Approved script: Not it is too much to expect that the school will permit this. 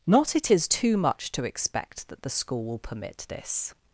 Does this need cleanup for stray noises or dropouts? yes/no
no